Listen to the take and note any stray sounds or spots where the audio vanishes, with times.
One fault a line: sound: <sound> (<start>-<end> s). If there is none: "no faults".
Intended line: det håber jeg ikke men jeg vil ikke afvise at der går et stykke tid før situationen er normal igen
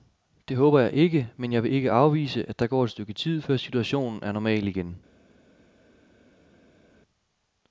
no faults